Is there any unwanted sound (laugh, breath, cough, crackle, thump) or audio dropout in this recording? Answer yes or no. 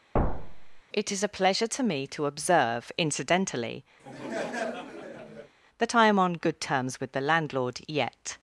yes